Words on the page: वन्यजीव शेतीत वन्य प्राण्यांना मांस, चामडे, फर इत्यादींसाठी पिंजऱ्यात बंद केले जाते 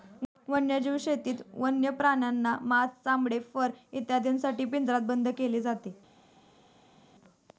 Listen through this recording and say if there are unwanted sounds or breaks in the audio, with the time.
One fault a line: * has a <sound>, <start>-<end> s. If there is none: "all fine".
all fine